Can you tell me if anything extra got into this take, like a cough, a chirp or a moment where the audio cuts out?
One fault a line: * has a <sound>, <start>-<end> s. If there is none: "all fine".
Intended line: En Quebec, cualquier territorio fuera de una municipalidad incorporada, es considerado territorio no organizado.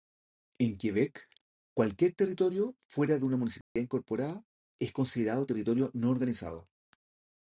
* has a dropout, 3.6-3.8 s